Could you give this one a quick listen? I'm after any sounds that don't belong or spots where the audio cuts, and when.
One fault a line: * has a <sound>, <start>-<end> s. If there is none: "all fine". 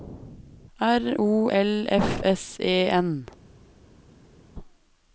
all fine